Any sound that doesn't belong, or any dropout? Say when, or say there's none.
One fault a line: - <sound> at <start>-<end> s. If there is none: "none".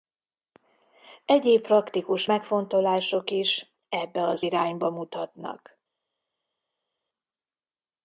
none